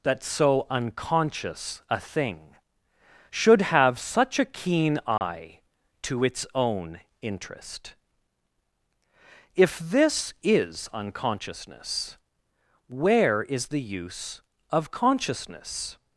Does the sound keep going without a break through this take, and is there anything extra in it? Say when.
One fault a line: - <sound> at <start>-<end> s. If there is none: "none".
- dropout at 5.2-5.2 s